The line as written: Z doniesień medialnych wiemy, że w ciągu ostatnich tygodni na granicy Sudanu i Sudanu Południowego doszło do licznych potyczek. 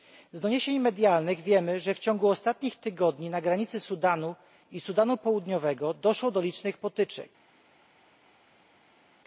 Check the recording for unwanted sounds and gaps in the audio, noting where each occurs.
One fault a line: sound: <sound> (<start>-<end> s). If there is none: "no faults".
no faults